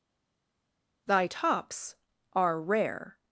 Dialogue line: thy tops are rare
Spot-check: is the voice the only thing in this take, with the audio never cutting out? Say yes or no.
yes